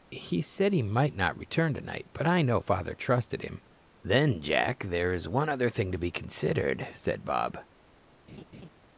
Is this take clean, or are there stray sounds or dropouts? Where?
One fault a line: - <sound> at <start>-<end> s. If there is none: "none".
- laugh at 8.3-8.7 s